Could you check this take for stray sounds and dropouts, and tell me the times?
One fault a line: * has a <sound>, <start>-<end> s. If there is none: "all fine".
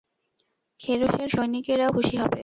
all fine